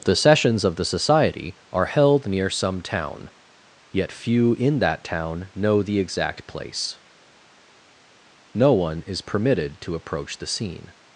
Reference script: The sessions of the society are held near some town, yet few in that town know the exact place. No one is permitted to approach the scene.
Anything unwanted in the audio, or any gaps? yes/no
no